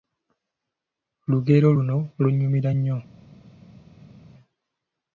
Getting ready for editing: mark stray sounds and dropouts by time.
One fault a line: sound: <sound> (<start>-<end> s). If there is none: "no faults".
no faults